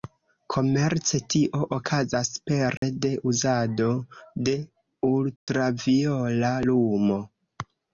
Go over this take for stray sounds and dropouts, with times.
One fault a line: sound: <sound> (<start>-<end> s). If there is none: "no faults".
sound: dropout (2.8-2.8 s)
sound: dropout (5.4-5.5 s)